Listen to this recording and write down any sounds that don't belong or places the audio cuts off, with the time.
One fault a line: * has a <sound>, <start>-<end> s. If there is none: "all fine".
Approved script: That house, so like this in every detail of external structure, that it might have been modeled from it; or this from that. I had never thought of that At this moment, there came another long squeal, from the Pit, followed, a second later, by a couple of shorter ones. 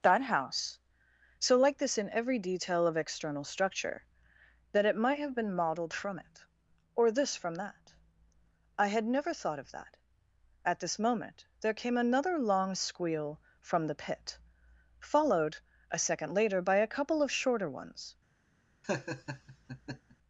* has a laugh, 18.8-20.2 s